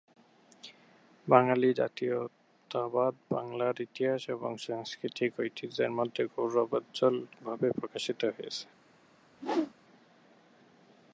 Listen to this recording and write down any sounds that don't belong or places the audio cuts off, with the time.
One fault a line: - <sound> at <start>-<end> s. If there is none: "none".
- whoosh at 9.3-9.7 s